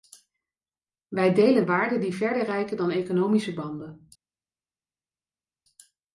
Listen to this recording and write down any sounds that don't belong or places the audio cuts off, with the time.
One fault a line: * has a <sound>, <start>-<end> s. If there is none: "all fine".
all fine